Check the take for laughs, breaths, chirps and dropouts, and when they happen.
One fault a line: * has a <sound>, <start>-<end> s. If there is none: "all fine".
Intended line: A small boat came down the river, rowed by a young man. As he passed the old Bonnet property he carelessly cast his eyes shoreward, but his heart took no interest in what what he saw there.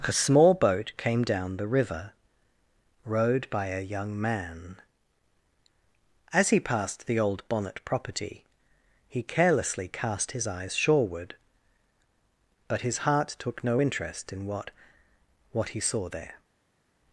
all fine